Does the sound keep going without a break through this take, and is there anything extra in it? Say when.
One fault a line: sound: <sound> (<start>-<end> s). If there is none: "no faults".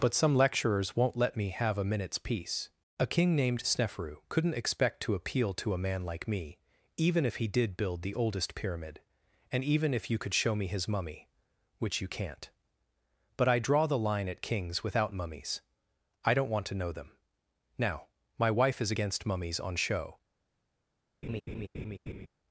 sound: laugh (21.2-22.3 s)